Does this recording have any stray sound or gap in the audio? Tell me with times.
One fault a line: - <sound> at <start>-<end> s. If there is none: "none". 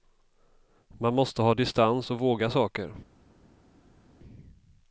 none